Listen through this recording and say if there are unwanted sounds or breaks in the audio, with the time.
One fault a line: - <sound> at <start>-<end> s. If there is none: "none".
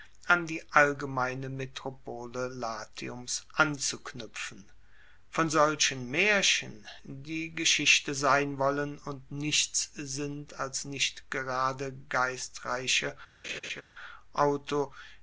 - laugh at 13.4-13.8 s